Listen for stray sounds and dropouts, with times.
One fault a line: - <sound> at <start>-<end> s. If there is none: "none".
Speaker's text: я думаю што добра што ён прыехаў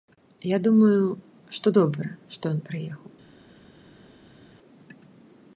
none